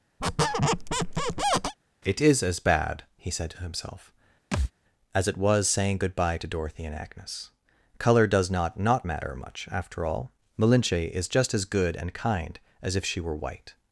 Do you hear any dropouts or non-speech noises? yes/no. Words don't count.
yes